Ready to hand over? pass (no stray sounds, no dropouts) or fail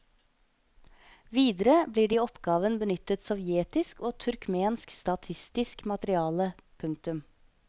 pass